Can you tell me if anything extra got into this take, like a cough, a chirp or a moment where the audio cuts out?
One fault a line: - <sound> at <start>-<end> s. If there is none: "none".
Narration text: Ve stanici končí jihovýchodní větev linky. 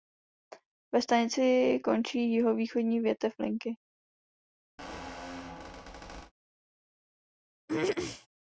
- squeak at 4.8-6.3 s
- throat clearing at 7.7-8.3 s